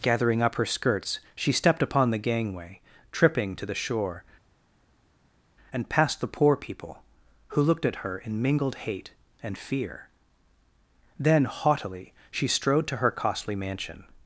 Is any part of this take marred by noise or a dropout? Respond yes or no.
no